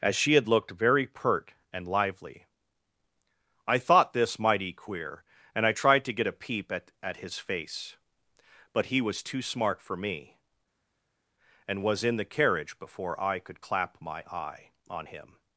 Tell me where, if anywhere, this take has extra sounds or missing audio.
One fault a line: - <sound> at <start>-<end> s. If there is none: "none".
none